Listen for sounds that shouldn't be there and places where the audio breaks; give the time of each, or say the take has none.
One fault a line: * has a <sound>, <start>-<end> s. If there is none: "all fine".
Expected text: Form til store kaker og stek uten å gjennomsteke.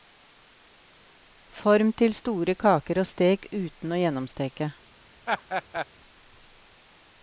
* has a laugh, 5.3-5.9 s